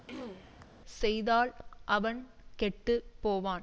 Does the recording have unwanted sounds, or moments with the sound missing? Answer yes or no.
yes